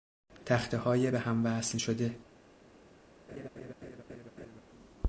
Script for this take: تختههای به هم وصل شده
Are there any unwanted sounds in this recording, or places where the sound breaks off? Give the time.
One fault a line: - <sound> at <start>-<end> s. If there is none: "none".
- laugh at 3.3-4.6 s